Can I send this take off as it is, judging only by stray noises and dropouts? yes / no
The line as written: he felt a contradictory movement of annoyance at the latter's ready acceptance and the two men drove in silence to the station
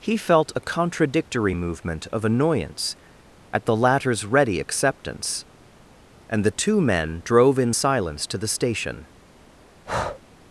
no